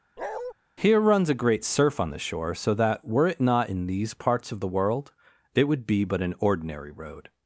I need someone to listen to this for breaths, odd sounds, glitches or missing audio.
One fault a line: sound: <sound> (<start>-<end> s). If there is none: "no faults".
sound: bark (0.2-0.5 s)